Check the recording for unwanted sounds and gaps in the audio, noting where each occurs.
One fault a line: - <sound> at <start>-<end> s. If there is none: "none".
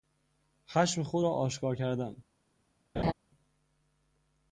- laugh at 3.0-3.1 s